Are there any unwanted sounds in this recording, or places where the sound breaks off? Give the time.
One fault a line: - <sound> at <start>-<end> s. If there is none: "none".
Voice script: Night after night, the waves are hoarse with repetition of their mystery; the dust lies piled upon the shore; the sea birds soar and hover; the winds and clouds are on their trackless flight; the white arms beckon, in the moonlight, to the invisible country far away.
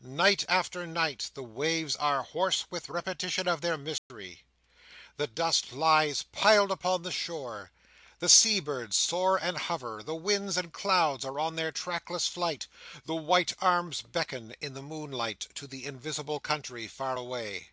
- dropout at 4.0-4.1 s